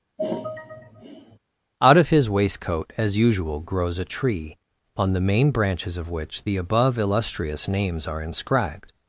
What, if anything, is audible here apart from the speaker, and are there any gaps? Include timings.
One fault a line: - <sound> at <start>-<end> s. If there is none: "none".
- sigh at 0.2-1.4 s